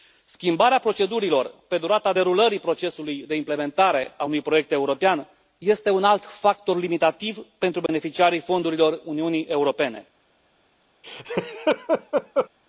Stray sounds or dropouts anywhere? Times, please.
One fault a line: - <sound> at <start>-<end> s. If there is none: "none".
- dropout at 7.9-7.9 s
- laugh at 11.0-12.5 s